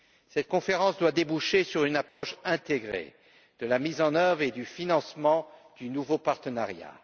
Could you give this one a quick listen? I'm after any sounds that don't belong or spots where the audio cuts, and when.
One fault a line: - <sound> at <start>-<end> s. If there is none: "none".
- dropout at 2.1-2.2 s